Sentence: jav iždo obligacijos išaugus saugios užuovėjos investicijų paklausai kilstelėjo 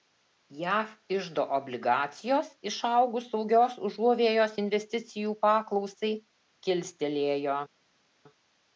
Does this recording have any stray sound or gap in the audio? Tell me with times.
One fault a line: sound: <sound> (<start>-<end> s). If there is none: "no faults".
no faults